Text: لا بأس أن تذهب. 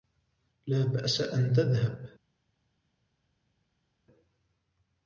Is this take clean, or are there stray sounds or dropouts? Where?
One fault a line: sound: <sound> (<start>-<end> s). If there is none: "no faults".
no faults